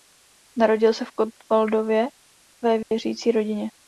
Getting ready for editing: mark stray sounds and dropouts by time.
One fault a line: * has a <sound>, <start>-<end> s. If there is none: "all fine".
* has a dropout, 2.8-2.9 s